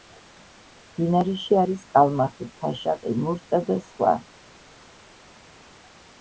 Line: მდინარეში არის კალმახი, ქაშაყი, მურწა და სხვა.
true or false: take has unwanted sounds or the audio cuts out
false